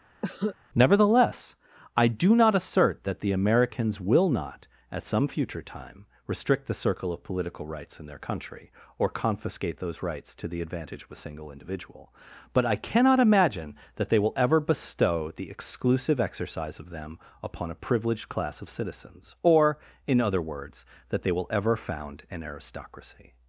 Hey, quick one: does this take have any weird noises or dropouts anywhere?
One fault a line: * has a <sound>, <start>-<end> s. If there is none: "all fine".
* has a cough, 0.2-0.6 s